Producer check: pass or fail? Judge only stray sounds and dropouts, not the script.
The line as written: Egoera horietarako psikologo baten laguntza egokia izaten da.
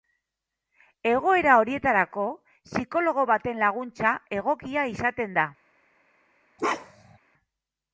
fail